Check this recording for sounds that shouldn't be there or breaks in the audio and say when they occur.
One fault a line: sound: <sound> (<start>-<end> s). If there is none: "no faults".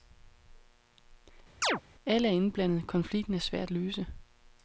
sound: chirp (1.6-1.8 s)